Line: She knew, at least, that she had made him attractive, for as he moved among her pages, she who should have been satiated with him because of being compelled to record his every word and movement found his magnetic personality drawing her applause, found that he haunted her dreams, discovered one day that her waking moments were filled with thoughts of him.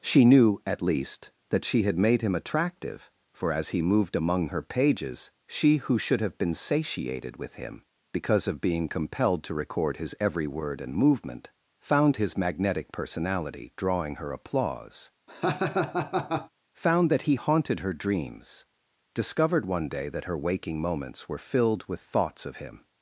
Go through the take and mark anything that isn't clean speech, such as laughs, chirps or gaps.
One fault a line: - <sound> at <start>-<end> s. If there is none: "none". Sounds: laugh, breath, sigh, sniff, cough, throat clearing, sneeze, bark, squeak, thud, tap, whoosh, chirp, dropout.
- laugh at 15.3-16.5 s